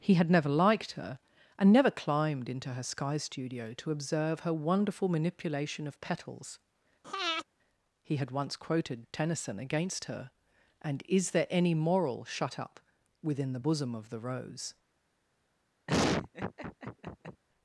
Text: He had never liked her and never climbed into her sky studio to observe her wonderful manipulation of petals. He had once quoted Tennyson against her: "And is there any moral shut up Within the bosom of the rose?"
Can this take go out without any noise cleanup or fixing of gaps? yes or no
no